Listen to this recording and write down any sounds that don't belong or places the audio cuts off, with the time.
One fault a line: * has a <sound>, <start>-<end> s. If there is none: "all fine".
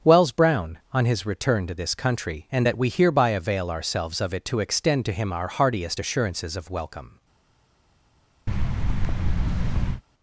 * has a thud, 8.5-10.0 s